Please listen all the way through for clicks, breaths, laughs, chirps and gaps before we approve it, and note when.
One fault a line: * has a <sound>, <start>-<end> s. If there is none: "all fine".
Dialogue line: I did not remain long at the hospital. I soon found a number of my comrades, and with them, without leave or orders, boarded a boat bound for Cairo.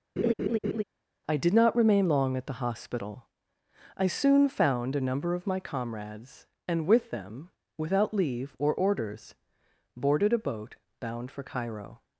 * has a laugh, 0.2-0.8 s